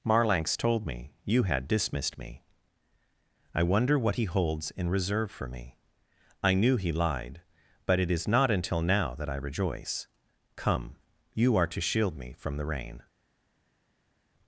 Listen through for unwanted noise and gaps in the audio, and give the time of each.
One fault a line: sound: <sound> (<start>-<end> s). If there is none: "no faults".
no faults